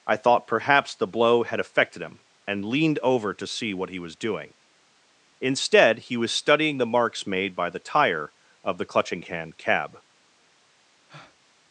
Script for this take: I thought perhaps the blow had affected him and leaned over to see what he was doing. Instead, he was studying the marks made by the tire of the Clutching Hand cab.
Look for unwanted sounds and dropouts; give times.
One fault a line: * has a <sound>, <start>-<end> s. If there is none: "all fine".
* has a breath, 11.1-11.4 s